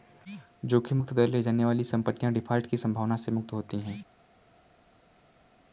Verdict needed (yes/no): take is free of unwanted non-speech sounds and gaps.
yes